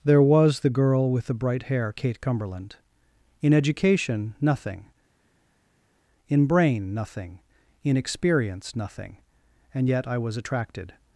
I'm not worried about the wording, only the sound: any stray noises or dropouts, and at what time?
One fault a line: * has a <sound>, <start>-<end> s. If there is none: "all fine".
all fine